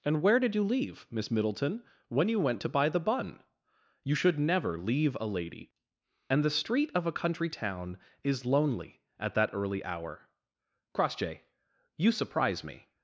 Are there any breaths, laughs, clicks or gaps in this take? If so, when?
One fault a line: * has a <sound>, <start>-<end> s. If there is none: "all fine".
all fine